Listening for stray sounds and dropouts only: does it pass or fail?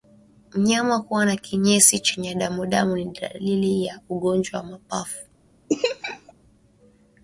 fail